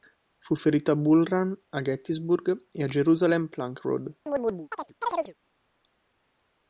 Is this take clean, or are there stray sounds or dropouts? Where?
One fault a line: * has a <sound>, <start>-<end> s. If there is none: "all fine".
* has a chirp, 4.3-5.3 s